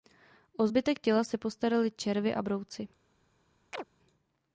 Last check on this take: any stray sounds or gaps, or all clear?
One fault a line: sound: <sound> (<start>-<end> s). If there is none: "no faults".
sound: chirp (3.7-3.8 s)